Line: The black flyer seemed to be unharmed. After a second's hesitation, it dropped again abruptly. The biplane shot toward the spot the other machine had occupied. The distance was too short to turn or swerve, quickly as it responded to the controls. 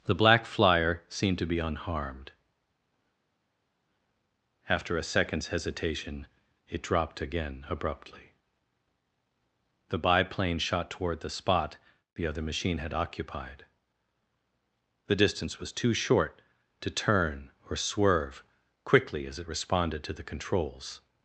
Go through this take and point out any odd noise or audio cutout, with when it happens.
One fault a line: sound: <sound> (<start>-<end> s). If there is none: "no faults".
no faults